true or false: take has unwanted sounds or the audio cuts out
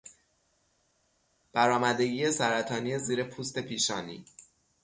false